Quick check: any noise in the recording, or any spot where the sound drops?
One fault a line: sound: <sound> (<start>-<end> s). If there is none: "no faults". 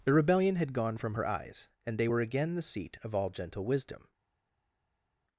no faults